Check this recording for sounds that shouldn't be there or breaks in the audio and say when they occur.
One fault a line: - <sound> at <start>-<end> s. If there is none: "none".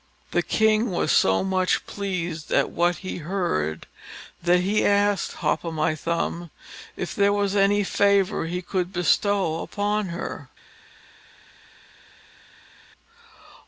none